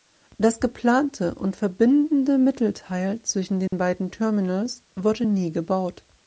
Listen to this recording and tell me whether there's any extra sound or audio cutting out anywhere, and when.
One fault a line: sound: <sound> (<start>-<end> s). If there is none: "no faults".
sound: dropout (3.7-3.7 s)